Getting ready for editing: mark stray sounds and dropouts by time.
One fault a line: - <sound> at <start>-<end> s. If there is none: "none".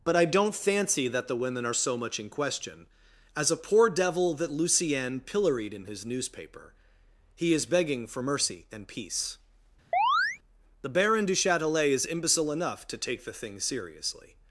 - chirp at 9.9-10.4 s